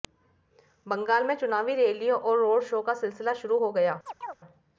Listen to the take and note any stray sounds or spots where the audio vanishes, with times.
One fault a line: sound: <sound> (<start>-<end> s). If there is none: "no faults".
sound: chirp (4.1-4.4 s)